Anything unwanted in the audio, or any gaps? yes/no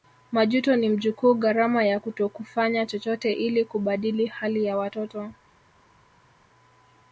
no